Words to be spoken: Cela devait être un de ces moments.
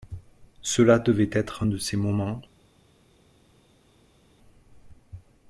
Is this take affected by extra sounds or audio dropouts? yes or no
no